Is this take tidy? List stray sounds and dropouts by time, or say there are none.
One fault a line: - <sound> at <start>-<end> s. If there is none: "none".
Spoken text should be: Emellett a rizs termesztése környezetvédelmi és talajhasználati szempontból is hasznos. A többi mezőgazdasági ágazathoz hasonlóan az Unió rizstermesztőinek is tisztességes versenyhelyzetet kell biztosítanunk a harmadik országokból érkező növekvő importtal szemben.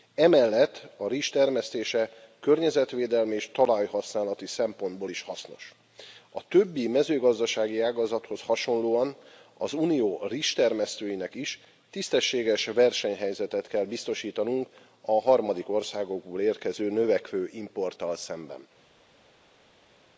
none